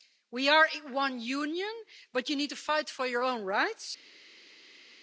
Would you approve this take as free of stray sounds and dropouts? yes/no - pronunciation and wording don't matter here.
yes